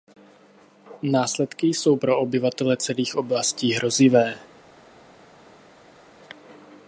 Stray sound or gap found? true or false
false